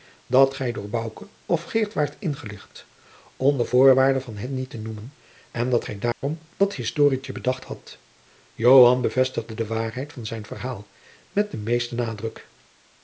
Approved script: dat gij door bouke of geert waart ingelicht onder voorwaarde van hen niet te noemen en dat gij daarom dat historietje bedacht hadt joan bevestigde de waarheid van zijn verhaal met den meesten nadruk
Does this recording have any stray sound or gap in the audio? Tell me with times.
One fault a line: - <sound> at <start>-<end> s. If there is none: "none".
- dropout at 6.1-6.2 s